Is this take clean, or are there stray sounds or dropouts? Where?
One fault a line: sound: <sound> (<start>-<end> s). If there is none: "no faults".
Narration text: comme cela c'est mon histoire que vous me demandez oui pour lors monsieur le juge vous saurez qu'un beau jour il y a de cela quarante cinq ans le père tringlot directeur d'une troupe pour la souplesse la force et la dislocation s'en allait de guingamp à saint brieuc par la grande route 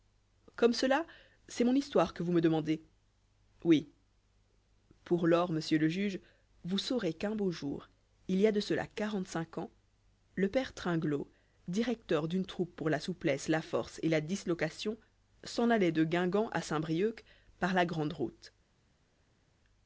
no faults